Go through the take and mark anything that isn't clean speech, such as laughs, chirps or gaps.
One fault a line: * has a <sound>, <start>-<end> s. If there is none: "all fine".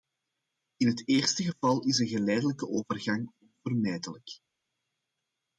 all fine